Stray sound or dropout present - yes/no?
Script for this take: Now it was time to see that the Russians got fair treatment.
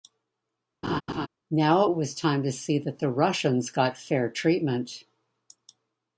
yes